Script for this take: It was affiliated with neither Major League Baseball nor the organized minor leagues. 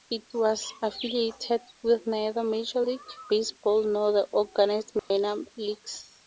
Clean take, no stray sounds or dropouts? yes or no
no